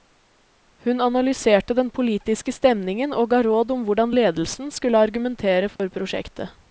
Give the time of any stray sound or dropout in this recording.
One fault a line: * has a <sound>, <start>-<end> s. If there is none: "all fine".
* has a dropout, 5.8-5.8 s